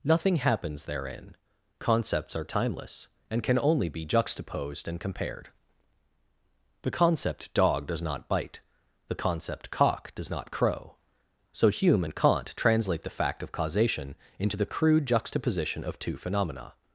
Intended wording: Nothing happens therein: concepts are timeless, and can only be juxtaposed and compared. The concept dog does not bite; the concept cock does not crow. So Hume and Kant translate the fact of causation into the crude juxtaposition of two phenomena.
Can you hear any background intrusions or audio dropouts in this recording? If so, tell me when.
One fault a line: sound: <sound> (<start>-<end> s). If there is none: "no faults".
no faults